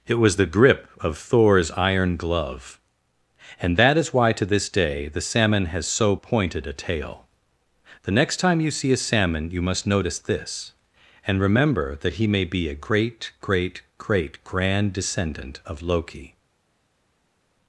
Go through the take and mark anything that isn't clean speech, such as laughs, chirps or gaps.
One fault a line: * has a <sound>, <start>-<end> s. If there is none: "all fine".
all fine